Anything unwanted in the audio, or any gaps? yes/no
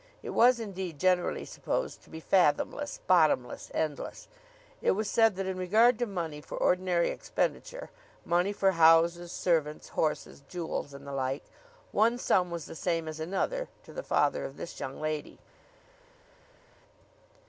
no